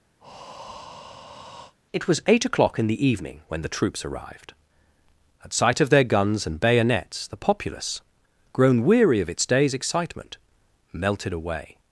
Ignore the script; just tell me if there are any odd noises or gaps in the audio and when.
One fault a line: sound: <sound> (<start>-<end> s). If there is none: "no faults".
sound: breath (0.2-1.7 s)